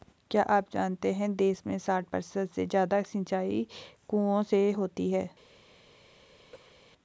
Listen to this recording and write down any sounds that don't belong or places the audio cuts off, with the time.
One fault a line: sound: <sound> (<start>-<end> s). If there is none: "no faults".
sound: cough (6.5-6.8 s)